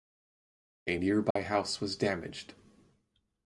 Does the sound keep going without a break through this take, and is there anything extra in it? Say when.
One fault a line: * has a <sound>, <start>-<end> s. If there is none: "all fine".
* has a dropout, 1.3-1.4 s